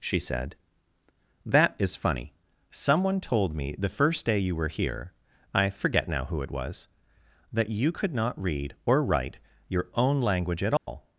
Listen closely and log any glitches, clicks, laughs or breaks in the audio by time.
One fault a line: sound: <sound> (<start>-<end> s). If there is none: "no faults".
sound: dropout (10.8-10.9 s)